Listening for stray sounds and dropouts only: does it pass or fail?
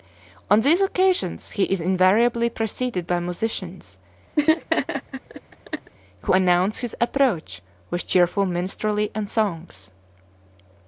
fail